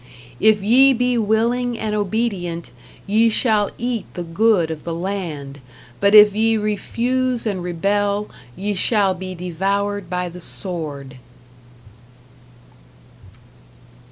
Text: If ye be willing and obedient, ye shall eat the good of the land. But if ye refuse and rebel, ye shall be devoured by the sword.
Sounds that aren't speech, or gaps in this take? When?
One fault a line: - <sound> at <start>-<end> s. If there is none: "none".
none